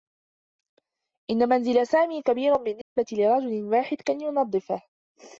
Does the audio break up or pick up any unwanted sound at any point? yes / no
yes